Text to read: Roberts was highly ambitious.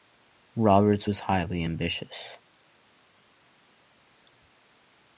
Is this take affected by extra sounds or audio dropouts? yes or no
no